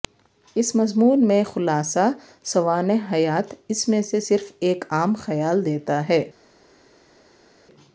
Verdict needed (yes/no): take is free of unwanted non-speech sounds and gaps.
yes